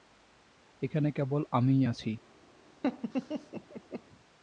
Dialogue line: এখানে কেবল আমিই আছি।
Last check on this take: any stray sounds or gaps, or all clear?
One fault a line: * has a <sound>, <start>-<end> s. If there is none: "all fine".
* has a laugh, 2.8-4.0 s